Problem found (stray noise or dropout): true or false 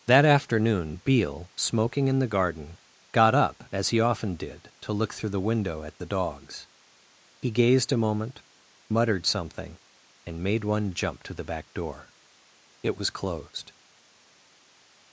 false